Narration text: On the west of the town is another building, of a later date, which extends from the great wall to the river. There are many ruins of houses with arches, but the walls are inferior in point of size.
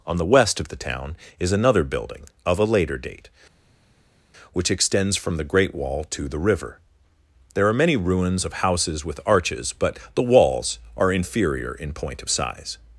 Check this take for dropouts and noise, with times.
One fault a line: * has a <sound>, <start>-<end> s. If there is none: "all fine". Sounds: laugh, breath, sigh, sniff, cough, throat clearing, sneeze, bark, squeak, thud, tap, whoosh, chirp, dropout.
all fine